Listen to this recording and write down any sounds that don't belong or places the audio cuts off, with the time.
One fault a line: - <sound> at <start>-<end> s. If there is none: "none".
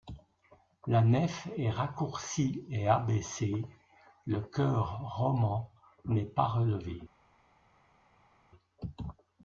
none